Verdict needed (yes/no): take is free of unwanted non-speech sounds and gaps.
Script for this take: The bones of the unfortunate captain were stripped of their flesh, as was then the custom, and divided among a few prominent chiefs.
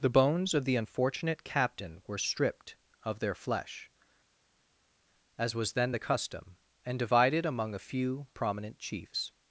yes